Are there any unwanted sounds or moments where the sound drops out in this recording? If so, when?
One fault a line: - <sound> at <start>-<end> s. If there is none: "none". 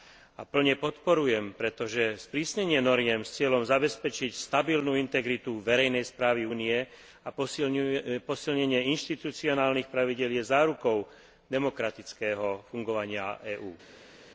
none